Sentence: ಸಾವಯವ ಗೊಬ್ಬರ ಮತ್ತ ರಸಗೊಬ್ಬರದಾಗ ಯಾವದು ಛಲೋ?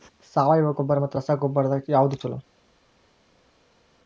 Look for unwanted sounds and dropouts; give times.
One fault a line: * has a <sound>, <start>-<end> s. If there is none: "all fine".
all fine